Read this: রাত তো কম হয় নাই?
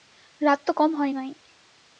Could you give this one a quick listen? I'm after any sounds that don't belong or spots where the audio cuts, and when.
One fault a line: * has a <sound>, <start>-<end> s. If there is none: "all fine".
all fine